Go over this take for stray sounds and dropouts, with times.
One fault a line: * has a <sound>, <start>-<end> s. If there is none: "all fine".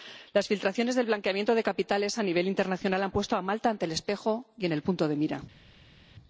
all fine